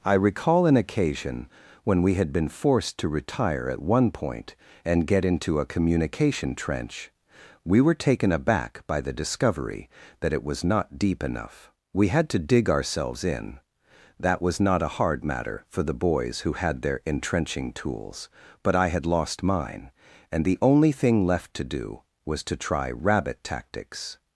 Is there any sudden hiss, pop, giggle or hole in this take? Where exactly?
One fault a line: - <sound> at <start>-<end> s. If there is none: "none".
none